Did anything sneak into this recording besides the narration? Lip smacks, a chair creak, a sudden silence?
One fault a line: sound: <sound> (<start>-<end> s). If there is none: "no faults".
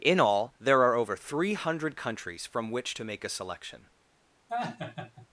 sound: laugh (4.5-5.3 s)